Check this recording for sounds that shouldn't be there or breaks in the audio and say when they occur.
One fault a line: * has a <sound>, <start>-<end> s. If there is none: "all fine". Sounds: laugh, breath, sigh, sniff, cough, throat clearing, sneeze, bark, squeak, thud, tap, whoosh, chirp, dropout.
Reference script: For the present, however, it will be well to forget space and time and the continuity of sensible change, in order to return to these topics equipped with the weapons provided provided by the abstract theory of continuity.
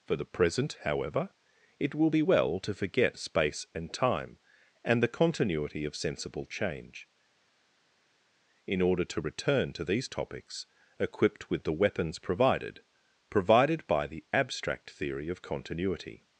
all fine